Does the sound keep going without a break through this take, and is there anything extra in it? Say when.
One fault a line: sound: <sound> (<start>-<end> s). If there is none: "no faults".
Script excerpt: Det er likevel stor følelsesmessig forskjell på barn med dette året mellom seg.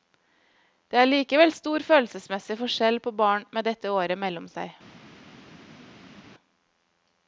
no faults